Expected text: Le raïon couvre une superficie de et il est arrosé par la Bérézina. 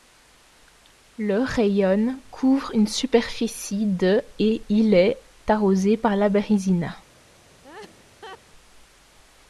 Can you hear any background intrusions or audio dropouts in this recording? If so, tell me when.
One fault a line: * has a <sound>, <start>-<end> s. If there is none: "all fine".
* has a laugh, 7.6-8.4 s